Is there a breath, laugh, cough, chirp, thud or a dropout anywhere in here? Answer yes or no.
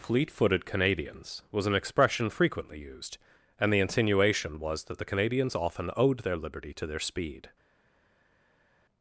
no